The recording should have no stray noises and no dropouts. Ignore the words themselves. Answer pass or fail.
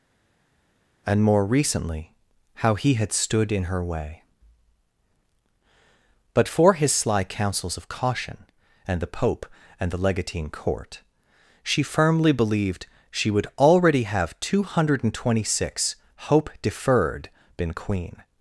pass